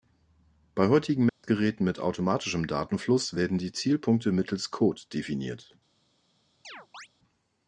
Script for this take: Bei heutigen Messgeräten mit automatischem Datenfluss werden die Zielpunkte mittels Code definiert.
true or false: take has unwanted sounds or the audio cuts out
true